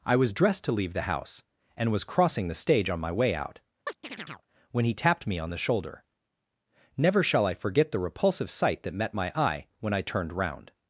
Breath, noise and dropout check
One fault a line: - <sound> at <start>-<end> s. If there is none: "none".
- chirp at 3.9-4.5 s